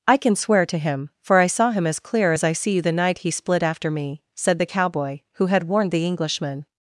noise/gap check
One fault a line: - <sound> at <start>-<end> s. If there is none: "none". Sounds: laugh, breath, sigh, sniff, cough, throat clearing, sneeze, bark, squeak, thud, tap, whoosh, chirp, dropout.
none